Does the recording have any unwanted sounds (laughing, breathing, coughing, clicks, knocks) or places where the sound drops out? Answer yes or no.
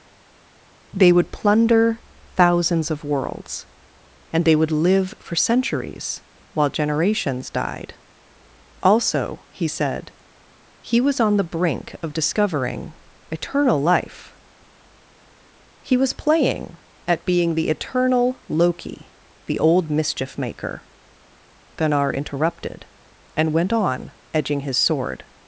no